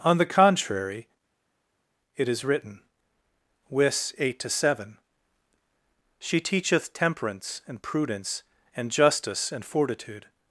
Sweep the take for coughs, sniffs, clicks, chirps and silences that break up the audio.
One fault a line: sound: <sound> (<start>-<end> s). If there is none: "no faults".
no faults